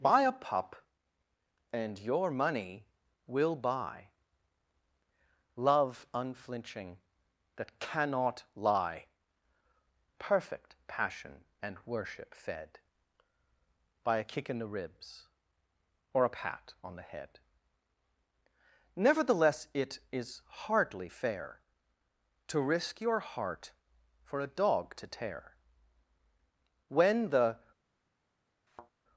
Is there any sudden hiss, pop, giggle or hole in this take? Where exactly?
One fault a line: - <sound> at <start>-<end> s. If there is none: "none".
- thud at 28.7-28.9 s